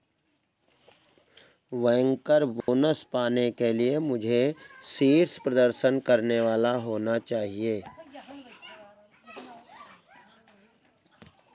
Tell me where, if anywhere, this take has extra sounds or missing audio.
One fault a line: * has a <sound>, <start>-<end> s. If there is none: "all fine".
* has a dropout, 2.6-2.7 s